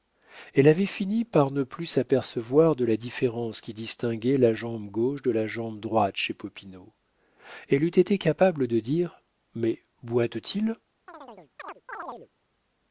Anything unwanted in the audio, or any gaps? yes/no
yes